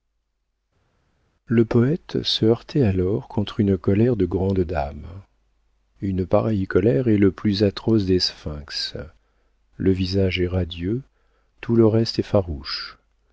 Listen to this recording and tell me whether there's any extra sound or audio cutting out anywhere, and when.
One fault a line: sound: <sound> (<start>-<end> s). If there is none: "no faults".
no faults